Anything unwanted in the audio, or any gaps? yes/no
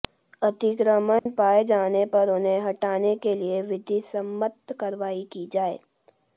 yes